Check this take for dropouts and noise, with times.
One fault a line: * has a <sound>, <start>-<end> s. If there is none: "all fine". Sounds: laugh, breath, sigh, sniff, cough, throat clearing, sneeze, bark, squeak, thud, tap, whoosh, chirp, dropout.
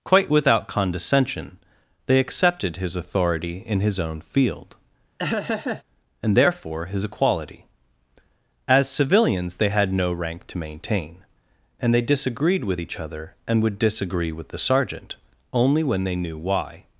* has a laugh, 5.2-5.8 s